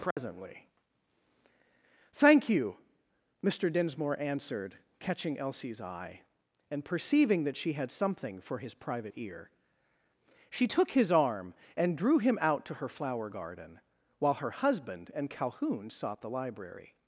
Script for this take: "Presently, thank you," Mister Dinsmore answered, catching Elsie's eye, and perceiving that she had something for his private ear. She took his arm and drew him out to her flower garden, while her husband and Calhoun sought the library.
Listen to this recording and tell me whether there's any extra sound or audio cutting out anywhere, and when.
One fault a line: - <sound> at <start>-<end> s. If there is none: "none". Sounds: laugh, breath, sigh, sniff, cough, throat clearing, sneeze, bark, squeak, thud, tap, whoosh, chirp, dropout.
- dropout at 0.1-0.2 s